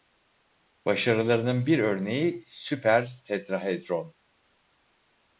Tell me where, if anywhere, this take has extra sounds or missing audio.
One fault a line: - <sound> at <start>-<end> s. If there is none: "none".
none